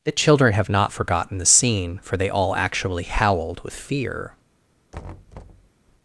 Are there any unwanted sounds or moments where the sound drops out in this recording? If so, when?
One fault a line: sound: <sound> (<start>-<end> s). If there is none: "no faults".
sound: thud (4.9-5.7 s)